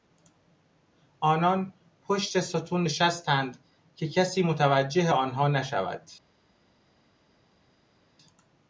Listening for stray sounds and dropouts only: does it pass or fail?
pass